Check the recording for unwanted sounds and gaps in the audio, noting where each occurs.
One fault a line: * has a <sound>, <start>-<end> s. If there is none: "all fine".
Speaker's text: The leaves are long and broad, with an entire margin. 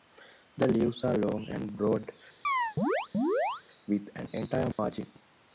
* has a chirp, 2.4-3.6 s
* has a dropout, 4.7-4.8 s